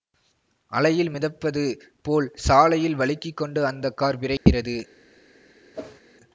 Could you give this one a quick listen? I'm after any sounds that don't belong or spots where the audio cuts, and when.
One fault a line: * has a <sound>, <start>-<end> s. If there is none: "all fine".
* has a dropout, 4.4-4.5 s
* has a whoosh, 5.7-6.0 s